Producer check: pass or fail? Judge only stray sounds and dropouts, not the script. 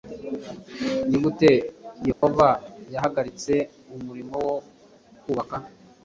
fail